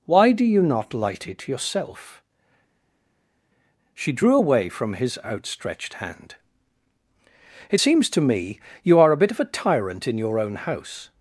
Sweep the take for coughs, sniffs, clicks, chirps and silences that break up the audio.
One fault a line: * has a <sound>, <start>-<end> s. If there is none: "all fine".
all fine